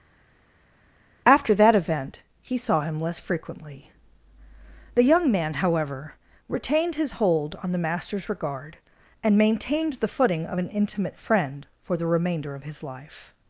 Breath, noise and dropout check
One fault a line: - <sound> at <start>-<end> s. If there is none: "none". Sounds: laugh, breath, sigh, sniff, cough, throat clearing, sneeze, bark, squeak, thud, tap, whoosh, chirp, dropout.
none